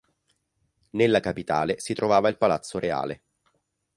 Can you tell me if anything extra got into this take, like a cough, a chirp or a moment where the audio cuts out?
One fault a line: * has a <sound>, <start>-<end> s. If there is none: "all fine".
all fine